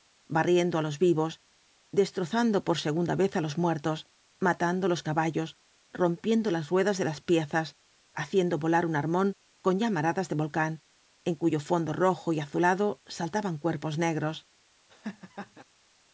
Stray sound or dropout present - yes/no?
yes